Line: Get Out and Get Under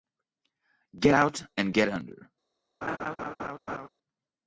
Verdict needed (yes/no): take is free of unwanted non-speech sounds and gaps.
no